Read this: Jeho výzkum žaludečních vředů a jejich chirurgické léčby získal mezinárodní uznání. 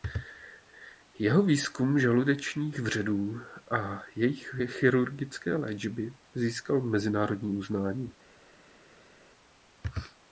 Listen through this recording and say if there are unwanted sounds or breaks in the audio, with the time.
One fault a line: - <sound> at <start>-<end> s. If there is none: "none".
none